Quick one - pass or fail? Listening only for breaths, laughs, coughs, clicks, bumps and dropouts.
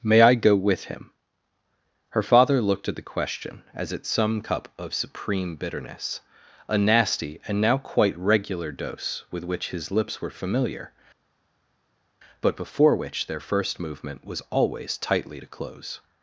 pass